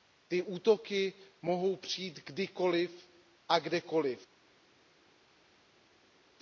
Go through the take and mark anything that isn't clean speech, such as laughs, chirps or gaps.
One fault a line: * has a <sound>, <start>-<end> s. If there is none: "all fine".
all fine